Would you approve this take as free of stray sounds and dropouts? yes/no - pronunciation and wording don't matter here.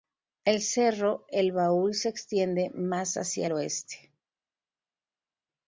yes